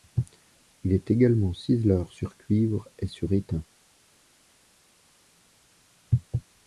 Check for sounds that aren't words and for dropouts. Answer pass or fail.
pass